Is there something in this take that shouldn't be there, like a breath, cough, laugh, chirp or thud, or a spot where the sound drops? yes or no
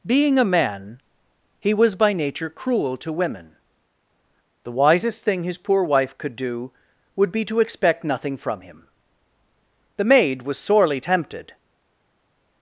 no